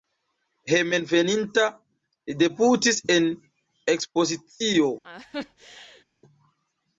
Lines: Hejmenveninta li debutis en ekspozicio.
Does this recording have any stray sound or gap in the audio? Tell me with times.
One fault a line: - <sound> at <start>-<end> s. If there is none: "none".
- laugh at 5.0-6.0 s